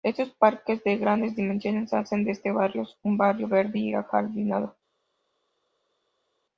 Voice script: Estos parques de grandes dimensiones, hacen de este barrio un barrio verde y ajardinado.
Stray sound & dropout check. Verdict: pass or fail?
pass